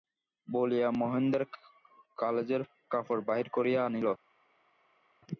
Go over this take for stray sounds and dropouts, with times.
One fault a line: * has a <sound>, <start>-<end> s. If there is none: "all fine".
all fine